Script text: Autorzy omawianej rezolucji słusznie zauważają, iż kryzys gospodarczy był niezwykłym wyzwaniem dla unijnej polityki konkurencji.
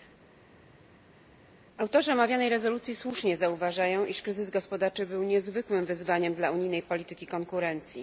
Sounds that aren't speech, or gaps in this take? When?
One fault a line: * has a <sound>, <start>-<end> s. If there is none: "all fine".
all fine